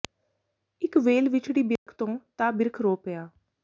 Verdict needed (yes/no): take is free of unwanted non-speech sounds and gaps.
no